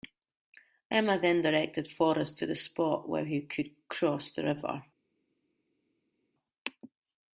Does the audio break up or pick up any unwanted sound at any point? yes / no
no